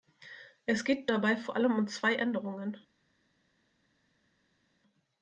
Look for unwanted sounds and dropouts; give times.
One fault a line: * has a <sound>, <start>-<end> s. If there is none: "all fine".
all fine